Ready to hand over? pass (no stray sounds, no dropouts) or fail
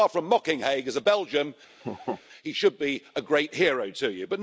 fail